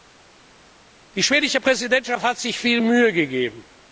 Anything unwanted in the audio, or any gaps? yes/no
no